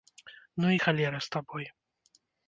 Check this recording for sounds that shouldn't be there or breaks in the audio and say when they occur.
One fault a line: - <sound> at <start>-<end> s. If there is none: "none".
none